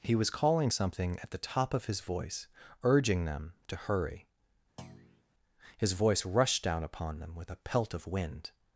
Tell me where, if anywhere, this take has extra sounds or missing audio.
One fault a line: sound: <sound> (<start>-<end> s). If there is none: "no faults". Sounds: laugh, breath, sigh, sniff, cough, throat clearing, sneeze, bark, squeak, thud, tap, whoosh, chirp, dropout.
sound: thud (4.8-5.2 s)